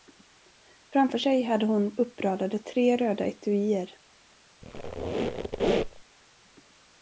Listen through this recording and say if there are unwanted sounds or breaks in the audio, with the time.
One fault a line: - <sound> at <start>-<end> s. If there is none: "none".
- squeak at 4.6-6.0 s